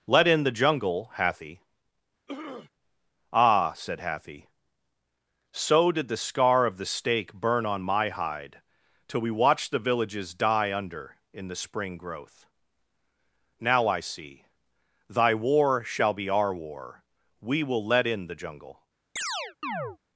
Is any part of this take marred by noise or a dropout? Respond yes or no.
yes